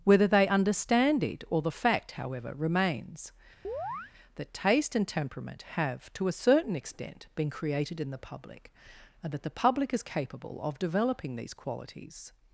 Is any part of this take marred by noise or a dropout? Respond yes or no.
yes